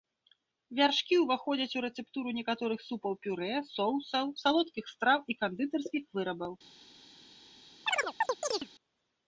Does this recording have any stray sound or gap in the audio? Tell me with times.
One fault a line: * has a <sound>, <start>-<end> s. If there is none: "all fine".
* has a chirp, 7.9-8.7 s